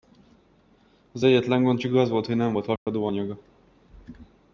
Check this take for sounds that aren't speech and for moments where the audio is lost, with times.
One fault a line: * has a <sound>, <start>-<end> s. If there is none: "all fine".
* has a dropout, 2.8-2.9 s